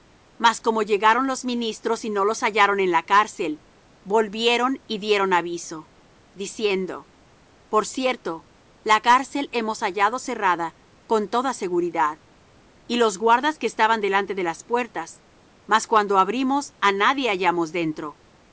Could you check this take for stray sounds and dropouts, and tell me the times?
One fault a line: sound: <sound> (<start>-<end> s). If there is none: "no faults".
no faults